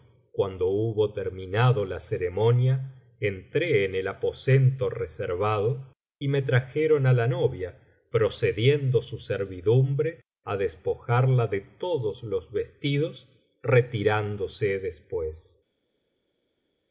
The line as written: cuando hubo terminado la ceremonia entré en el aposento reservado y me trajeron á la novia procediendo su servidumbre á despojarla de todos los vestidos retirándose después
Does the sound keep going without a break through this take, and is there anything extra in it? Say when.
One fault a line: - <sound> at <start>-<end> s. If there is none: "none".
none